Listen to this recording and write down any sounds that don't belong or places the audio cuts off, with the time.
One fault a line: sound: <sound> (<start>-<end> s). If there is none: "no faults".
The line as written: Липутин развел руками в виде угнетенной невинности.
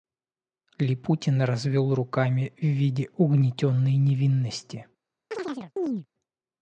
sound: chirp (5.3-6.1 s)